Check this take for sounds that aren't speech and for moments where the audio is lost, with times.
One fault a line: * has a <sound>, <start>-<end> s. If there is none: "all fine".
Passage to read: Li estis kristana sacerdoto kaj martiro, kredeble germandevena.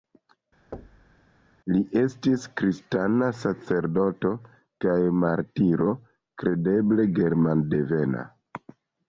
* has a thud, 0.7-1.2 s